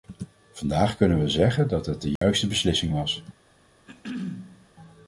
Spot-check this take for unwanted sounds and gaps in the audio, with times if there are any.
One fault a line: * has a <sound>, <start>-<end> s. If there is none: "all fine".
* has a dropout, 2.2-2.2 s
* has a throat clearing, 3.9-4.7 s